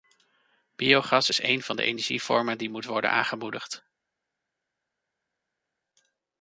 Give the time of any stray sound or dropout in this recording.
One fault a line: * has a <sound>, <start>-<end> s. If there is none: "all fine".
all fine